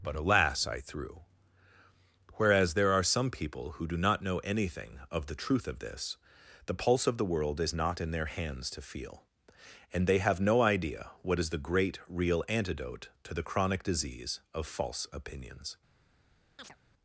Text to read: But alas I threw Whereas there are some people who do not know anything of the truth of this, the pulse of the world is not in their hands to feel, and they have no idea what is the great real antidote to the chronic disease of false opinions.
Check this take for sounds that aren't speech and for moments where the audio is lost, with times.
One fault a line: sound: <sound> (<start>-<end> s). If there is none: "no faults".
sound: chirp (16.6-16.8 s)